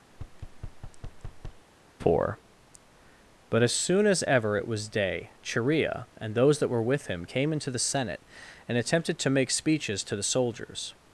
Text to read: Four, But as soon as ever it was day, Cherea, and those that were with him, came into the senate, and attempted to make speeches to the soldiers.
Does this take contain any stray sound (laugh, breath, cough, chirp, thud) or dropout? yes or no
yes